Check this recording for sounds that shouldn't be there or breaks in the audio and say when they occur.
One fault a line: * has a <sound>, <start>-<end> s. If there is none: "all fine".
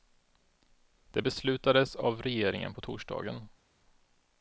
all fine